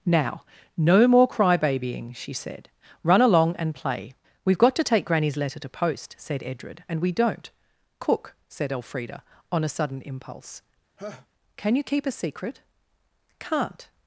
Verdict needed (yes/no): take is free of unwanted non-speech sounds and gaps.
no